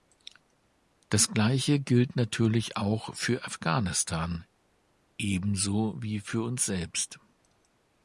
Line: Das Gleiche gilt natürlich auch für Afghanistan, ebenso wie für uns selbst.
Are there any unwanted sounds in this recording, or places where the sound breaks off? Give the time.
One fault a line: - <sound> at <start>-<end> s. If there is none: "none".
none